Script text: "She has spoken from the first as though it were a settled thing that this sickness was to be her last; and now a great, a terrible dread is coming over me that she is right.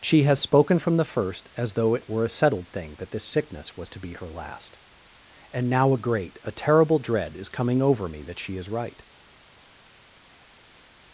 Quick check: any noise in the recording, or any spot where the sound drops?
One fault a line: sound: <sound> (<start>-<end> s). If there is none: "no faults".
no faults